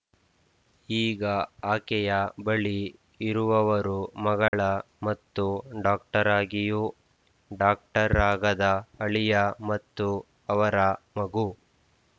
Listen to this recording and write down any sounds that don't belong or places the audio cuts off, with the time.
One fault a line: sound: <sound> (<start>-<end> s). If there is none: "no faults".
sound: dropout (4.5-4.5 s)